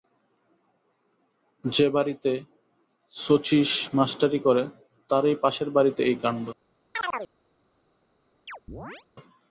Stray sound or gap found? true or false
true